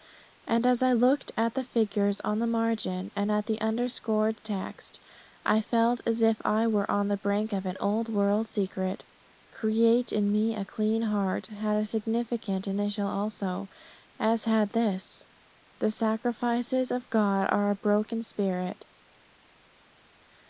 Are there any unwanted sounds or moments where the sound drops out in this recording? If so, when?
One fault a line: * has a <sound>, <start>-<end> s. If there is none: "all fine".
all fine